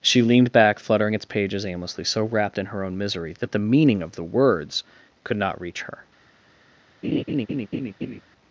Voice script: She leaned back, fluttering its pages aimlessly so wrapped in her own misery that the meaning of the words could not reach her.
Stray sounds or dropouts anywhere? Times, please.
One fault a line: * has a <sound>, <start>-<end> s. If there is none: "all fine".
* has a laugh, 7.0-8.2 s